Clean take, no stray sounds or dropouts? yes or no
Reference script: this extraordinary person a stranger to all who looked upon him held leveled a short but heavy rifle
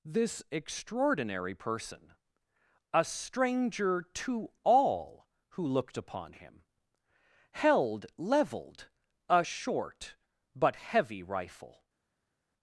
yes